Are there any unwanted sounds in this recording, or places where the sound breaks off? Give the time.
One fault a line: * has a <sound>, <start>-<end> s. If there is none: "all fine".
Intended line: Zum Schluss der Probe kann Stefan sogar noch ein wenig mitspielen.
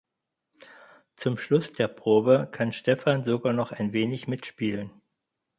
all fine